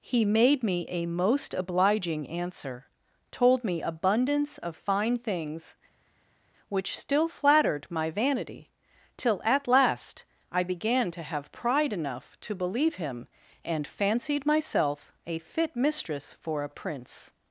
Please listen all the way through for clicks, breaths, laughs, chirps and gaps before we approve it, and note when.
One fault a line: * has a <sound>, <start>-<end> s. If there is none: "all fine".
all fine